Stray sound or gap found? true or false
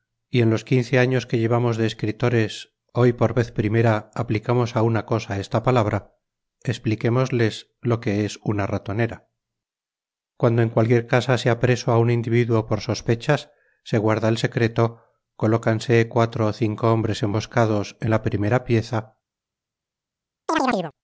true